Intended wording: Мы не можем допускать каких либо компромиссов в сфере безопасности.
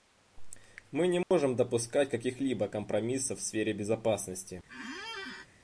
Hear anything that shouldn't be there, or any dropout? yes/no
yes